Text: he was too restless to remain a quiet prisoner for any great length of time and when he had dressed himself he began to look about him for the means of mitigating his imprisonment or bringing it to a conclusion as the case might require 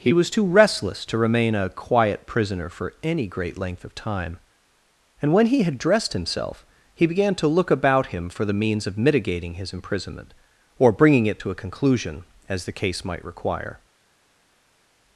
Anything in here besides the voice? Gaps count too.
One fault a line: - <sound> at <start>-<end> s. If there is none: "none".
none